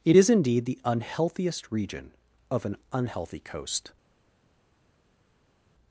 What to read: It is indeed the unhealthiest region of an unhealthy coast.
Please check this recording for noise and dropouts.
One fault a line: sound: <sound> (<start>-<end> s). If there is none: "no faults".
no faults